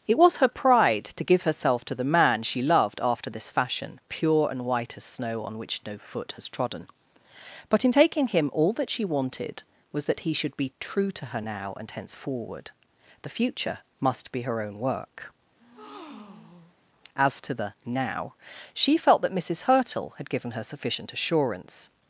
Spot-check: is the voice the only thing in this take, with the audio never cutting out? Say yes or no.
no